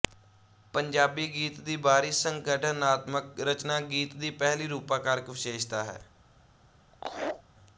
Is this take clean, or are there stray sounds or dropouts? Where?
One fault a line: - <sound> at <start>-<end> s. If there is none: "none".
- laugh at 6.9-7.4 s